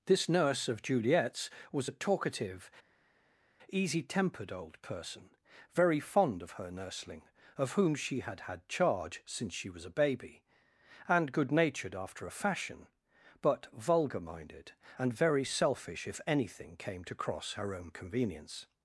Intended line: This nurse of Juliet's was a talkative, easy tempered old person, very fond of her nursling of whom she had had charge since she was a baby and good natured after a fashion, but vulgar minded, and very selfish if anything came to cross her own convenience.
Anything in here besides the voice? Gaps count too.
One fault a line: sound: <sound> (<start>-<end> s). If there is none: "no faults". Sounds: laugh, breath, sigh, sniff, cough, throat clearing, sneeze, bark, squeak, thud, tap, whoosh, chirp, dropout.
no faults